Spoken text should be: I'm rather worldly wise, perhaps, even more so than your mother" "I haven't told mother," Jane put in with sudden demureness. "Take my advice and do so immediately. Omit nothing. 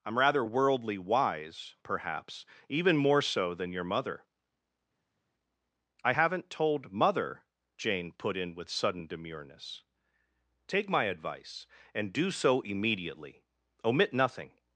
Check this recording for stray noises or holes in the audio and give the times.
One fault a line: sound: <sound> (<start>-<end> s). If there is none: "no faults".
no faults